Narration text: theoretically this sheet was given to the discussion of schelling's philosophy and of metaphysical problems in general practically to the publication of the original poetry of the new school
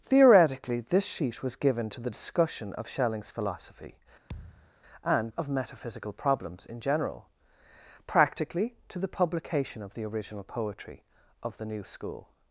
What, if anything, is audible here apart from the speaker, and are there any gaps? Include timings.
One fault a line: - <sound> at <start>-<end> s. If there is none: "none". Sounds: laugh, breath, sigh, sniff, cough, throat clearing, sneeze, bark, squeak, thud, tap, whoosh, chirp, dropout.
- thud at 4.3-4.7 s